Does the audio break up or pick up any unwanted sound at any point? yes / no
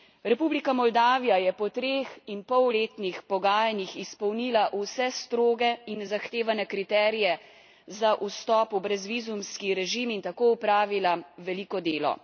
no